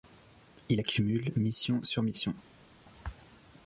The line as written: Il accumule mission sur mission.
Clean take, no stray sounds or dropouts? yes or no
yes